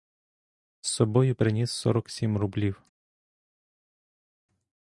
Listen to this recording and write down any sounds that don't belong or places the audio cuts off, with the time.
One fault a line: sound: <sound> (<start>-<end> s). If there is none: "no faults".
no faults